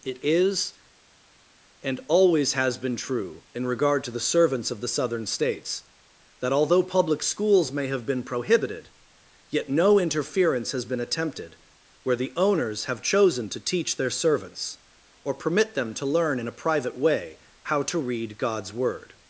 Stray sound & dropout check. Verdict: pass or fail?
pass